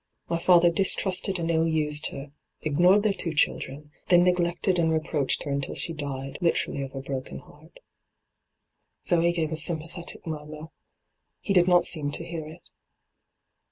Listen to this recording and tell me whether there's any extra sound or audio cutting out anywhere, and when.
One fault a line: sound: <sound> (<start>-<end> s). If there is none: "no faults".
no faults